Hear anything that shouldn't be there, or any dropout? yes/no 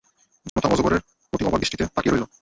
yes